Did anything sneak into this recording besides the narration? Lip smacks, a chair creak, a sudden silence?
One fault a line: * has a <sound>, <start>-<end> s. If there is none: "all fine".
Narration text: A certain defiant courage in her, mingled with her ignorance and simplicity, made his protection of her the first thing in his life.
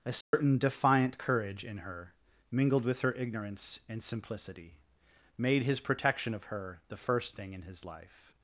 * has a dropout, 0.2-0.3 s